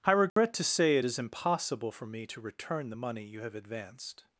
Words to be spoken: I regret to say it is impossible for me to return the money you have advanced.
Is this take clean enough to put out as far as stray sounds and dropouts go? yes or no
no